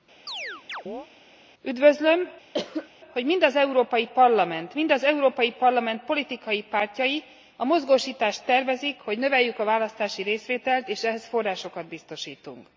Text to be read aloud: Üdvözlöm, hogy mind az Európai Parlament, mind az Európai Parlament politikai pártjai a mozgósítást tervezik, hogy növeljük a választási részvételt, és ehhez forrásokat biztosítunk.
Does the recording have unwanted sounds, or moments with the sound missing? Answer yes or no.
yes